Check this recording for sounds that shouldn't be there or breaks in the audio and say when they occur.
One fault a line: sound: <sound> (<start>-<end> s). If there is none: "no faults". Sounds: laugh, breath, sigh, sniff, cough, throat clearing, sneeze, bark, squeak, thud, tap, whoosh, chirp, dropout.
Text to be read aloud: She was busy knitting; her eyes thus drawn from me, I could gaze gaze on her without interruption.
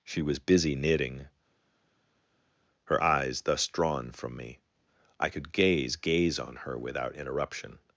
no faults